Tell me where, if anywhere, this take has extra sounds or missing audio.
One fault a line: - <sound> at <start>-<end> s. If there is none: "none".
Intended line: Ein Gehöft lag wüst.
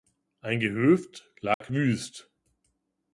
- dropout at 1.5-1.6 s